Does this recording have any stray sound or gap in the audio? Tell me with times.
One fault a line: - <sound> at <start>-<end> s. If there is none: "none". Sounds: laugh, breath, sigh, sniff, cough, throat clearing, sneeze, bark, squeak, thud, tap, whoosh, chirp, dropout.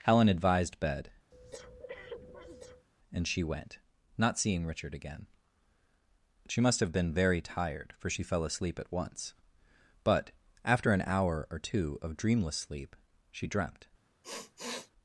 - breath at 1.3-2.9 s
- sniff at 14.2-14.9 s